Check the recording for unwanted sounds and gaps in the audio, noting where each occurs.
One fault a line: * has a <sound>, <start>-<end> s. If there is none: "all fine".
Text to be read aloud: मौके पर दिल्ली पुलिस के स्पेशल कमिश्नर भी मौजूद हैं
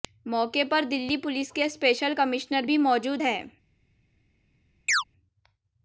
* has a chirp, 4.9-5.0 s